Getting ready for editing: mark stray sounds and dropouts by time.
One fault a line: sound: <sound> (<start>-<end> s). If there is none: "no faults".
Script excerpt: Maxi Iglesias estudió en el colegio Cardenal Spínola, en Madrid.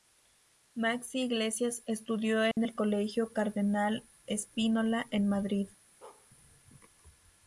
sound: dropout (2.5-2.6 s)
sound: bark (6.0-6.3 s)